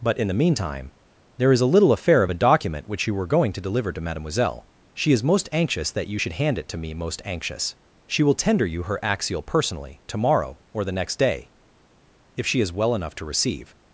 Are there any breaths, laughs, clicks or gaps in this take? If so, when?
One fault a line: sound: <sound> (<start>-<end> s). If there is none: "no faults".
no faults